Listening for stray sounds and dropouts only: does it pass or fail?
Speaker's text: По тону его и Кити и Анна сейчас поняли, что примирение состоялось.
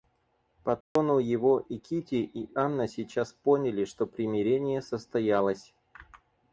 fail